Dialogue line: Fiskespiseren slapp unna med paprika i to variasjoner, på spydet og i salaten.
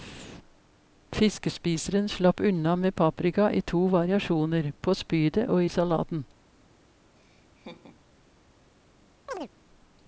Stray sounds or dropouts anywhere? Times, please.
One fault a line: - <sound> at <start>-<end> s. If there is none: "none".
- laugh at 7.2-8.0 s
- chirp at 9.3-9.5 s